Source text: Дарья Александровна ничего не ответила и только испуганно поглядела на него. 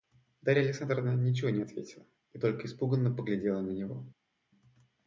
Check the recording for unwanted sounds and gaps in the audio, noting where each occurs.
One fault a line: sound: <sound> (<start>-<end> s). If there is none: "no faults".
no faults